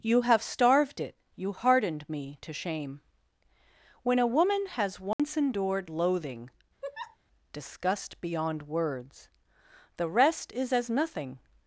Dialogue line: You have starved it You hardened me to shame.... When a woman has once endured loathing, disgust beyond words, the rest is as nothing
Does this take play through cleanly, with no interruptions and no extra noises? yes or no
no